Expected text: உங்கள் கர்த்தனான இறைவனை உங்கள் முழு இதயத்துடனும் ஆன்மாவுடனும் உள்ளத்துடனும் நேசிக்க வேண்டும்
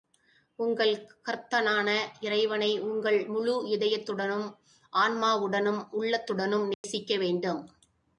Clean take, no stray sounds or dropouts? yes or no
no